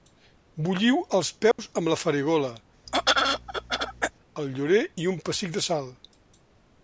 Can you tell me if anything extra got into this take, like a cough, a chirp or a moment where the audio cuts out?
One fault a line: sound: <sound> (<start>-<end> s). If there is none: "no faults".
sound: dropout (1.5-1.6 s)
sound: throat clearing (2.9-4.1 s)